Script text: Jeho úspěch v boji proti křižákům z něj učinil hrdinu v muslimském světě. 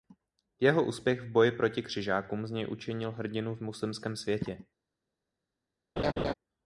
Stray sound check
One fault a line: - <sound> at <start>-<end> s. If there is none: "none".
- laugh at 6.0-6.3 s